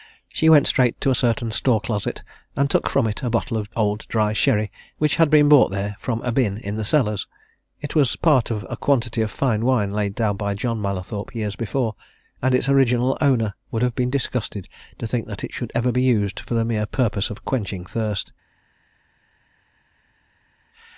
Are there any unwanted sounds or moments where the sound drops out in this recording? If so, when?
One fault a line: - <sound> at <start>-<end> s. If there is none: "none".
none